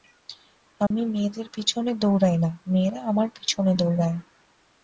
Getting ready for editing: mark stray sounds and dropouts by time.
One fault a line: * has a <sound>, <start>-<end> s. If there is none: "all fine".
* has a dropout, 0.9-0.9 s